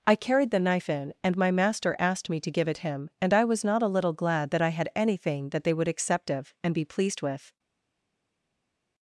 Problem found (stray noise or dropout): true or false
false